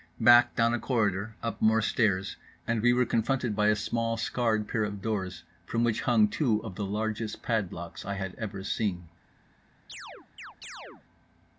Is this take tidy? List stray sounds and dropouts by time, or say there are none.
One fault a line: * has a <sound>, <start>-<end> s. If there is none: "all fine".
* has a chirp, 9.9-11.1 s